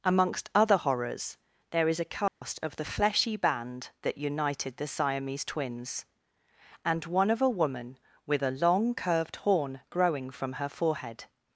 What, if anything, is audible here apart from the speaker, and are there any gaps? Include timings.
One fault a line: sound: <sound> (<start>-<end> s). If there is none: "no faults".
sound: dropout (2.3-2.4 s)